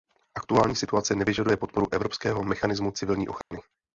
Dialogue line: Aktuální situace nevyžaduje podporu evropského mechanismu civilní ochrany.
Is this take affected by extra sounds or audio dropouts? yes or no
yes